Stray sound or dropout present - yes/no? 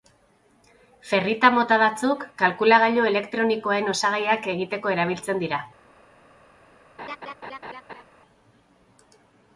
yes